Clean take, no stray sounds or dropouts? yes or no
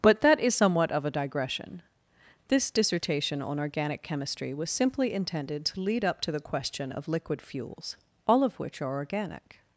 yes